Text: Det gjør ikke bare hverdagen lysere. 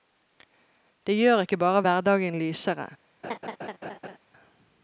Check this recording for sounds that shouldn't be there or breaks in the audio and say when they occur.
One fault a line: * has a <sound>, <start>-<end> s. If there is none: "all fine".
* has a laugh, 3.2-4.2 s